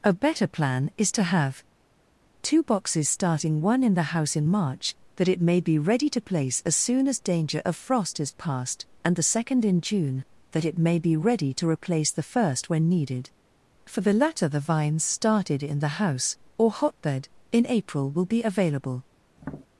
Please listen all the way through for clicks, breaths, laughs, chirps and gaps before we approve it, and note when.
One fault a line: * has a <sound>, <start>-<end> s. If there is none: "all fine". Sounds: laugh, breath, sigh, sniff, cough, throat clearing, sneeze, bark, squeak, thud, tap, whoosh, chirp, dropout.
* has a tap, 19.4-19.7 s